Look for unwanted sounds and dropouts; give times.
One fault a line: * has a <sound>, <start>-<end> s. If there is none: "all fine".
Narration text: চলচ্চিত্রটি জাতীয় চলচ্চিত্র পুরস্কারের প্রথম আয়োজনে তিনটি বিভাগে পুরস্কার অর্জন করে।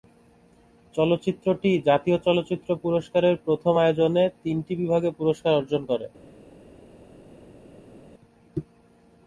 all fine